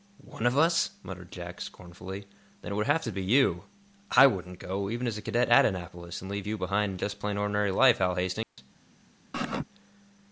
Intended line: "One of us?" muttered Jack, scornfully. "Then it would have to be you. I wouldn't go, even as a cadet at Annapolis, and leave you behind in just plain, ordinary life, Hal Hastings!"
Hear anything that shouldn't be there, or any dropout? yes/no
yes